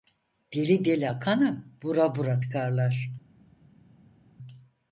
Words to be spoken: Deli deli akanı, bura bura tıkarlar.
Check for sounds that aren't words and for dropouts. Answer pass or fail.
pass